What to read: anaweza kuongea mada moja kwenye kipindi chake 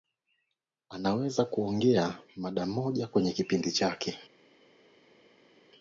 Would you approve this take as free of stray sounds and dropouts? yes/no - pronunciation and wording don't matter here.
yes